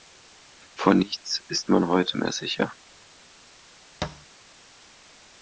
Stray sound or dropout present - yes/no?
yes